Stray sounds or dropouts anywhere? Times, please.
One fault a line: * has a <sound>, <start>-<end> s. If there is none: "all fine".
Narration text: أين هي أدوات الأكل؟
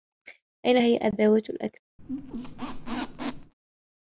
* has a squeak, 2.0-3.5 s